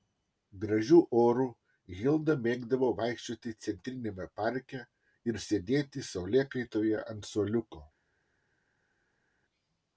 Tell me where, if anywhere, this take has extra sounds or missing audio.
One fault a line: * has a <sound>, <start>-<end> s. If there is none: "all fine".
all fine